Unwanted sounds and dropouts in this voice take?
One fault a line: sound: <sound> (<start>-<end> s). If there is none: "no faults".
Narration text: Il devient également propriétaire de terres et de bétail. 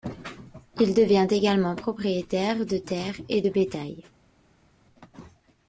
no faults